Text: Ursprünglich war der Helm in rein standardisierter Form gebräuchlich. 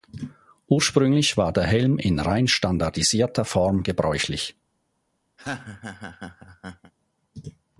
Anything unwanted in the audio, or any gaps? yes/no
yes